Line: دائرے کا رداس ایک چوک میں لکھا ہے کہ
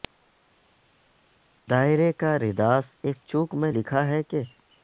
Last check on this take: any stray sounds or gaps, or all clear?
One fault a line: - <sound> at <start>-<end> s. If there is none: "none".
none